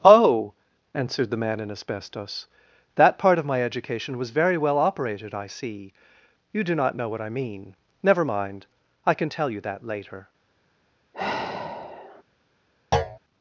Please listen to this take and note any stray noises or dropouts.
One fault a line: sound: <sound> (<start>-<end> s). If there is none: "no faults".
sound: sigh (11.1-12.2 s)
sound: thud (12.9-13.2 s)